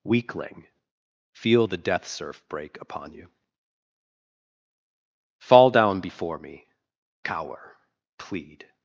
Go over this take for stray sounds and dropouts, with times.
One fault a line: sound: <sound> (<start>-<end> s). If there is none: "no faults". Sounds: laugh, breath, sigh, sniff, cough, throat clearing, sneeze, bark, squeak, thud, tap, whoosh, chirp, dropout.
no faults